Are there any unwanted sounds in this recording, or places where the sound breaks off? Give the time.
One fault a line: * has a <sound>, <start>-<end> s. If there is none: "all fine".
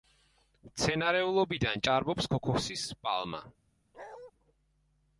* has a bark, 3.9-4.3 s